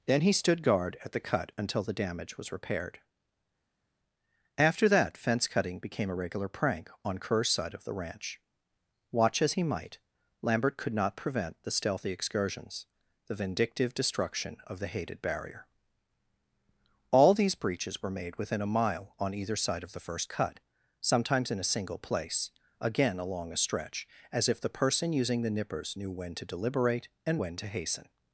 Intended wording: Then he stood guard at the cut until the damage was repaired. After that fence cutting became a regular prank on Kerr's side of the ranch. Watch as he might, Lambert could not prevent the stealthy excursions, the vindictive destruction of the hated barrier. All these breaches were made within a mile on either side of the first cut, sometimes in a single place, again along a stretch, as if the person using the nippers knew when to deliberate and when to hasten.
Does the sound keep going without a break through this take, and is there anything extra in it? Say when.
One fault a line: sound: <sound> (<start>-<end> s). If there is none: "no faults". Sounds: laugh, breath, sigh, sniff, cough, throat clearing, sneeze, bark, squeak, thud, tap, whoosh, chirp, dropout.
no faults